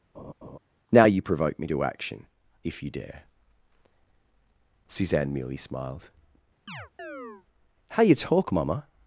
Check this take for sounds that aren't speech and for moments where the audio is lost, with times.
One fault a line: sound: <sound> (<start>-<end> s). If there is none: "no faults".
sound: laugh (0.1-0.6 s)
sound: chirp (6.7-7.5 s)